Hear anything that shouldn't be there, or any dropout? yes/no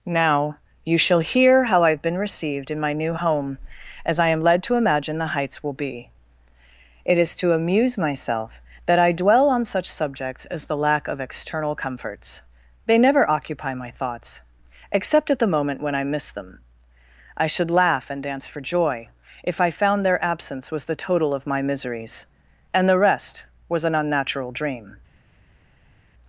no